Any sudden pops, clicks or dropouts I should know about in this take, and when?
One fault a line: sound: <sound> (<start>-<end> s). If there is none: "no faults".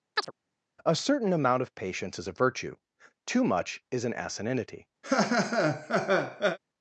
sound: chirp (0.2-0.3 s)
sound: laugh (5.0-6.6 s)